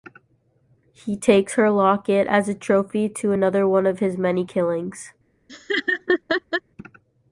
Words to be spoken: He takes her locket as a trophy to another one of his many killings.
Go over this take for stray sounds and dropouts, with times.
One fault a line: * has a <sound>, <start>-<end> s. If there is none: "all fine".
* has a laugh, 5.5-6.6 s